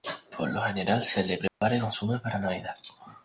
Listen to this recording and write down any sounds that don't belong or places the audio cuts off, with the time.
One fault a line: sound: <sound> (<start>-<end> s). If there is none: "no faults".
sound: dropout (1.5-1.6 s)